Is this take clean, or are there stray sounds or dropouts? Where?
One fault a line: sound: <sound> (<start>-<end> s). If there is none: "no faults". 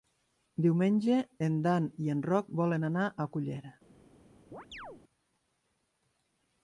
sound: chirp (4.5-5.0 s)